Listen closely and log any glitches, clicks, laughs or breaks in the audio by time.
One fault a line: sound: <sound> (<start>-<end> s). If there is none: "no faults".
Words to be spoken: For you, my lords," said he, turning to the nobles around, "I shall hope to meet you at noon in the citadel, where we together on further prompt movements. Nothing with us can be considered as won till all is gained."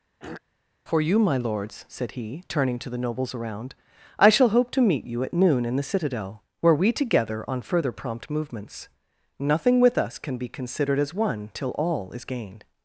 sound: throat clearing (0.2-0.4 s)